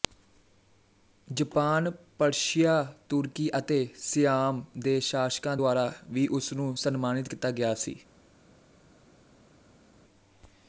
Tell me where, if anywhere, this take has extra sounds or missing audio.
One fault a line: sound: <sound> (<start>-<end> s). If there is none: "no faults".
no faults